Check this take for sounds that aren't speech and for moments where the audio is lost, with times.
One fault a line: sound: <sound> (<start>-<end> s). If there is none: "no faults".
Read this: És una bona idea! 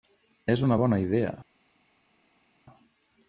no faults